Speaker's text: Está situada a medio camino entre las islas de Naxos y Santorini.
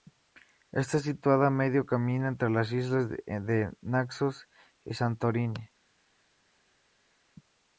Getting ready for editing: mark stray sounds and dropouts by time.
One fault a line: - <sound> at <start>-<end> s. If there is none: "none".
none